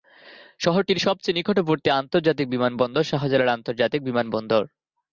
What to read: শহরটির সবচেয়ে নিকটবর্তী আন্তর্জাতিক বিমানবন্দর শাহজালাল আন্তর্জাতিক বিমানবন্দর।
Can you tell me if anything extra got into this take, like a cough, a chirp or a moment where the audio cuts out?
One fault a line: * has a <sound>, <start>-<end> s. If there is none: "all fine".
all fine